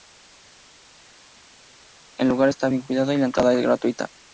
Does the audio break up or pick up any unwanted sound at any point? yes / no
no